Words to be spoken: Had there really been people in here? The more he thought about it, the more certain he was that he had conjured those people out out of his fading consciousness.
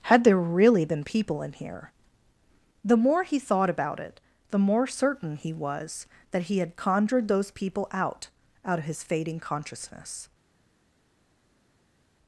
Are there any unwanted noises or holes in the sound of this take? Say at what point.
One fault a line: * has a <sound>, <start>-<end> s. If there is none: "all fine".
all fine